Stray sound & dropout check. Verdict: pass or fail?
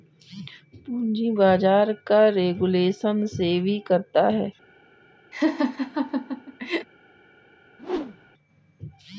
fail